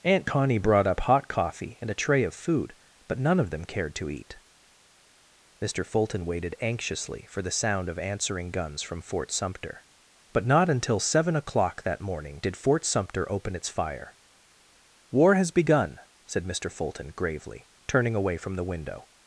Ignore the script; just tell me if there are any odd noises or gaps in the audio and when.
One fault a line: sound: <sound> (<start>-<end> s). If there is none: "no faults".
no faults